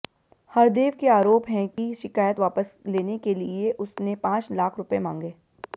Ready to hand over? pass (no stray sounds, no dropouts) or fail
fail